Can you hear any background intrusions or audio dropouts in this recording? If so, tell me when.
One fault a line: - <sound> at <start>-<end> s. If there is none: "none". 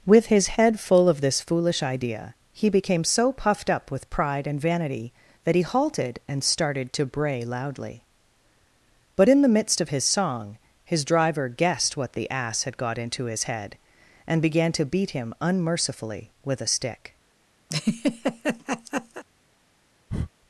- laugh at 17.7-19.2 s
- breath at 20.1-20.3 s